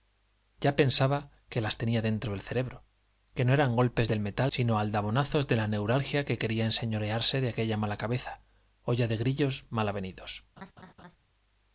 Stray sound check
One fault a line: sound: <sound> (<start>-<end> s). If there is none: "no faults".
sound: laugh (10.6-11.2 s)